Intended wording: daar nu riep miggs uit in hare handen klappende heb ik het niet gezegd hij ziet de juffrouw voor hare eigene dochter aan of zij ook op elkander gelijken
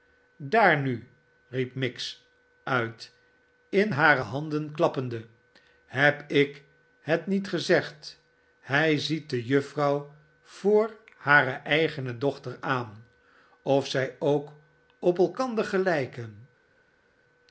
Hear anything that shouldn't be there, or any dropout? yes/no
no